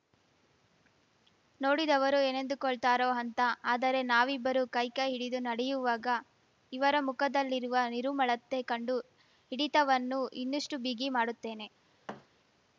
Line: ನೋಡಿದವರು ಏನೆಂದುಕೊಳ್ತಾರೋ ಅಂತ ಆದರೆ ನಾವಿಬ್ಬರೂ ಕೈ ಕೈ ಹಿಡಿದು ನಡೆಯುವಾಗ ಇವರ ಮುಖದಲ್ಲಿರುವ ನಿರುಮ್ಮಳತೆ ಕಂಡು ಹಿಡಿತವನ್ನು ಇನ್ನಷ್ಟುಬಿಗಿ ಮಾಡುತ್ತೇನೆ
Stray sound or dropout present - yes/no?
yes